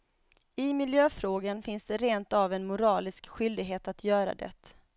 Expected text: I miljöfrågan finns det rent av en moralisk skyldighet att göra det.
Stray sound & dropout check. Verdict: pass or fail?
pass